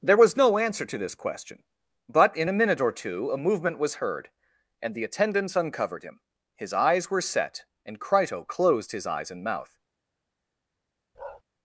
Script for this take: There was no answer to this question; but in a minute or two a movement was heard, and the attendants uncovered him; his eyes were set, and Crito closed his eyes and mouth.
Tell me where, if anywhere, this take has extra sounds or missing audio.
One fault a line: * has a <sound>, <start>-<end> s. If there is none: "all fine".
* has a bark, 11.1-11.4 s